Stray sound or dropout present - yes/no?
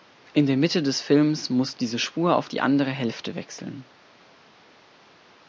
no